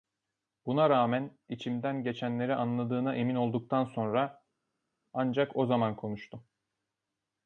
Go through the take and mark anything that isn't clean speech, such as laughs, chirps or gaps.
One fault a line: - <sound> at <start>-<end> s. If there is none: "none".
none